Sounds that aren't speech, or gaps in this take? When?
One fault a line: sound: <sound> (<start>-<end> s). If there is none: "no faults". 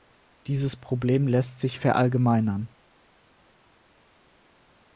no faults